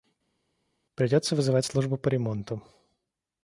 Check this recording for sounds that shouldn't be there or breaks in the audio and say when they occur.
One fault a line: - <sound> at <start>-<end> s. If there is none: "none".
none